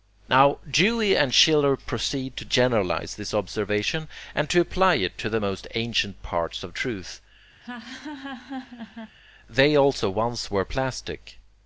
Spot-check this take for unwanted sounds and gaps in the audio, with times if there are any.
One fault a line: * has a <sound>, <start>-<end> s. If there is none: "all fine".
* has a laugh, 7.6-9.2 s